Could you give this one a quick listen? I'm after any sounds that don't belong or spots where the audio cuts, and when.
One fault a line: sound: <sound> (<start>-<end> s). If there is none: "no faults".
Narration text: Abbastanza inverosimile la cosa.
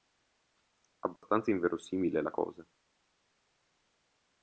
sound: dropout (1.2-1.2 s)